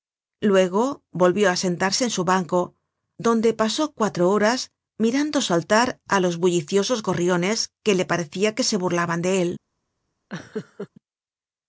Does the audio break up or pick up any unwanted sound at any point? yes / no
yes